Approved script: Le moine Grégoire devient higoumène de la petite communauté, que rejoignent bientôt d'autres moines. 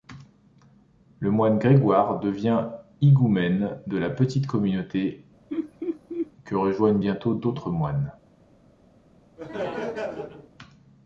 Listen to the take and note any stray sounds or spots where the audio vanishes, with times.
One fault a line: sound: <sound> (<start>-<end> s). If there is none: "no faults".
sound: laugh (5.5-6.3 s)
sound: laugh (9.4-10.5 s)